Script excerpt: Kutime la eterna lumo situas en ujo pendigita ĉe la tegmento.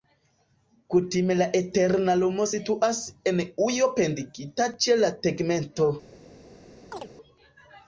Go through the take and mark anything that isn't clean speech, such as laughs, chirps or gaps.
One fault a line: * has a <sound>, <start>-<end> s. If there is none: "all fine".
* has a chirp, 6.9-7.1 s